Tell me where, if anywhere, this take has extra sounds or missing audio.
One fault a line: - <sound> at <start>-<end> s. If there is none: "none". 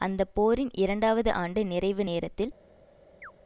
- chirp at 3.2-3.3 s